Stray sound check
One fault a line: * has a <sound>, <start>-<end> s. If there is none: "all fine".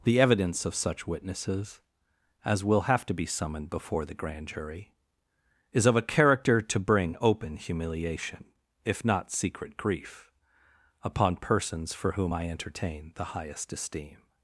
all fine